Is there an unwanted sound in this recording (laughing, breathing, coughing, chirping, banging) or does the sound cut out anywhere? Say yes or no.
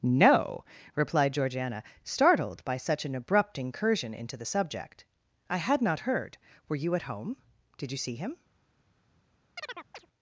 yes